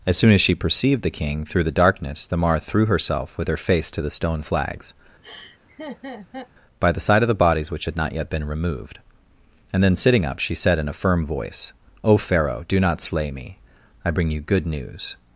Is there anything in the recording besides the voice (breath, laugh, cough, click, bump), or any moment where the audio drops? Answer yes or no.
yes